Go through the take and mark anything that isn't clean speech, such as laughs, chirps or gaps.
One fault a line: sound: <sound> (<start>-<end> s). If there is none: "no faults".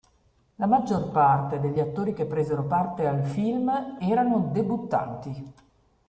no faults